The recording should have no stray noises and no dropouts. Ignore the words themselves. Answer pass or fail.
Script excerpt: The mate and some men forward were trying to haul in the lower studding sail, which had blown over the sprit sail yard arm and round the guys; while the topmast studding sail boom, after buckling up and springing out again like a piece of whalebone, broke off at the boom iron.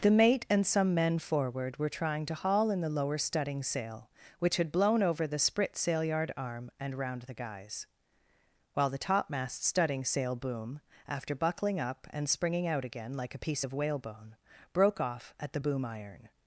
pass